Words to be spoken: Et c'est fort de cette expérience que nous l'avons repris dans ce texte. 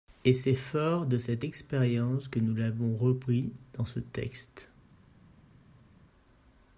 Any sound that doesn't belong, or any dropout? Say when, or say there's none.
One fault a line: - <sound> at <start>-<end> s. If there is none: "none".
none